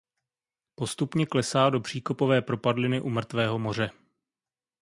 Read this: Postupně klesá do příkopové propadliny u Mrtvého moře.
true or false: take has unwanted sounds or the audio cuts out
false